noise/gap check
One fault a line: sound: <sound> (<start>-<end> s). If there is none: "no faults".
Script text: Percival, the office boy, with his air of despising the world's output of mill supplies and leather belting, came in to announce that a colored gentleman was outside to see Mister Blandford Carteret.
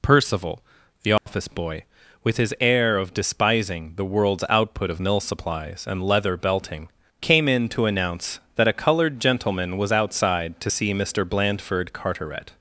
sound: dropout (1.2-1.3 s)